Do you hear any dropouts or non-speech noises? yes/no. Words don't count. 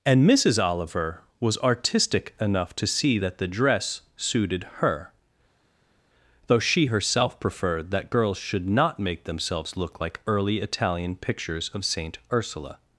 no